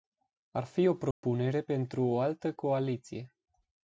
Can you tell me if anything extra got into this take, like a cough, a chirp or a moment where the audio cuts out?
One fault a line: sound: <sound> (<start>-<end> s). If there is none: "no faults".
sound: dropout (1.1-1.2 s)